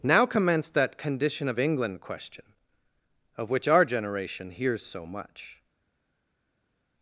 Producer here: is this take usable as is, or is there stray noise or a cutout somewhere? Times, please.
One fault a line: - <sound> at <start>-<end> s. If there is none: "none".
none